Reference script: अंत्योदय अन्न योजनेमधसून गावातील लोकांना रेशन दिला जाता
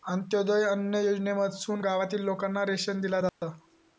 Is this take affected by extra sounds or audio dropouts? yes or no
yes